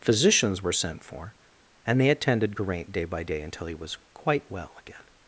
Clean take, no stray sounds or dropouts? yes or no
yes